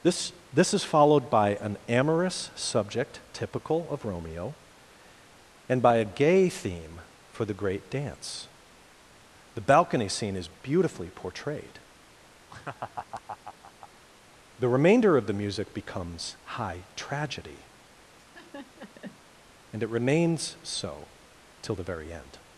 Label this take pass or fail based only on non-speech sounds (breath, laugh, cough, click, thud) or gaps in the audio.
fail